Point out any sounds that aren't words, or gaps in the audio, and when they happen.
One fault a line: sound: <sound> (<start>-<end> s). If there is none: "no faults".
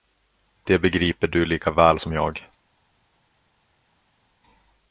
no faults